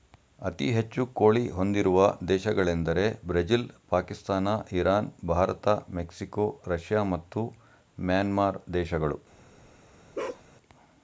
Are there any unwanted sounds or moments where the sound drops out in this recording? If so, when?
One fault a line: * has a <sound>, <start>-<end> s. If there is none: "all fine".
* has a bark, 10.1-10.4 s